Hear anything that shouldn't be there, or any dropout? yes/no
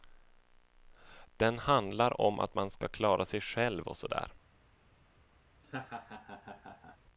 yes